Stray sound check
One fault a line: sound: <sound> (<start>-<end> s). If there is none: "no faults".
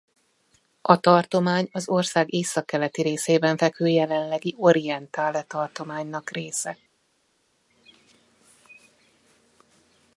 no faults